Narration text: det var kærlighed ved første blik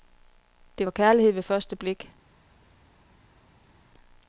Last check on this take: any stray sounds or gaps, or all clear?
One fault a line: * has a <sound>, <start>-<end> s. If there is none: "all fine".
all fine